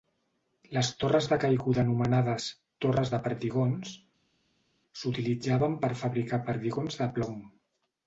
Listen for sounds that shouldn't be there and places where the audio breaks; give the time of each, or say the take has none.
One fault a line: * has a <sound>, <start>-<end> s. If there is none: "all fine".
all fine